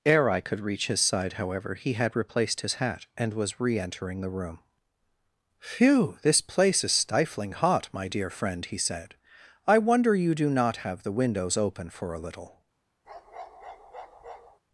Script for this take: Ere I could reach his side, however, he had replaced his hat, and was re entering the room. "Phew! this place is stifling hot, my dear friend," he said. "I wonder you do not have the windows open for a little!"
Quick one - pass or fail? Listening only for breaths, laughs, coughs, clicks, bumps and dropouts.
fail